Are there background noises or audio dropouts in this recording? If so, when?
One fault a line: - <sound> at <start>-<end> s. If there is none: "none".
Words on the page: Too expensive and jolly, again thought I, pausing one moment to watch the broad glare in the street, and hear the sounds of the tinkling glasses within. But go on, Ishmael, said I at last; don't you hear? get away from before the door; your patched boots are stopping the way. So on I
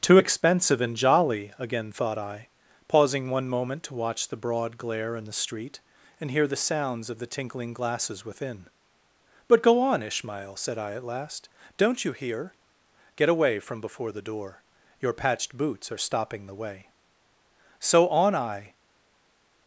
none